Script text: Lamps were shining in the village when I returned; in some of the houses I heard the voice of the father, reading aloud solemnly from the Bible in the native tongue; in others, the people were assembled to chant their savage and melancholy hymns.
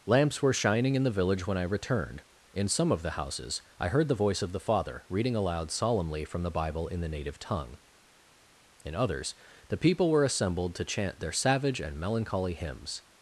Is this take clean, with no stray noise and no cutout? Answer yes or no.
yes